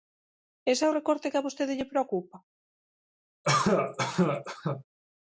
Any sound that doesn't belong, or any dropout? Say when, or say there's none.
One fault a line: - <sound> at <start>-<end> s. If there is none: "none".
- cough at 3.4-4.8 s